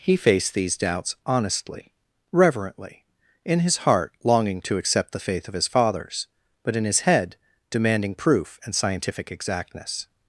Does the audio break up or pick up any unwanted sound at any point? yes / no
no